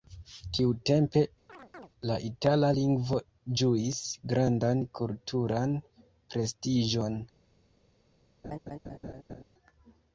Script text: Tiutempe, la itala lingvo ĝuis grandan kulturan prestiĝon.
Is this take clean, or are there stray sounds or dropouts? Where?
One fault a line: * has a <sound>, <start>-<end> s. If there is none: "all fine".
* has a chirp, 1.5-1.9 s
* has a laugh, 8.4-9.4 s